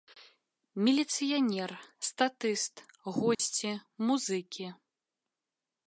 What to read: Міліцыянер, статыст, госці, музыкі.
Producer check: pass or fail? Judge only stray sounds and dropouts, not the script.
fail